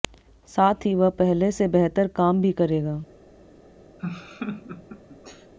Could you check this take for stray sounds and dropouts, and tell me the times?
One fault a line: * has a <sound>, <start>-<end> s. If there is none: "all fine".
* has a laugh, 4.0-5.5 s